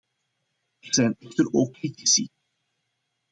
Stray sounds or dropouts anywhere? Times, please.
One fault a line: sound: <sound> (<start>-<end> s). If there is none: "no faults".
no faults